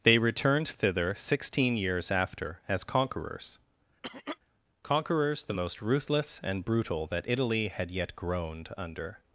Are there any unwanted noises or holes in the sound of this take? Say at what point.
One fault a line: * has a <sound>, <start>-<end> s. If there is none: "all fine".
* has a cough, 4.0-4.4 s